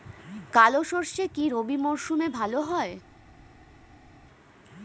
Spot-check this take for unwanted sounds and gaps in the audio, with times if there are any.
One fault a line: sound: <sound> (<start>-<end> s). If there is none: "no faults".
no faults